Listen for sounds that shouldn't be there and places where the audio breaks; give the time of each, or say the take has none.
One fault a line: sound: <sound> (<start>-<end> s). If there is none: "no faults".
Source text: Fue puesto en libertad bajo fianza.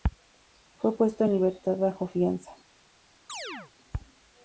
sound: chirp (3.3-3.7 s)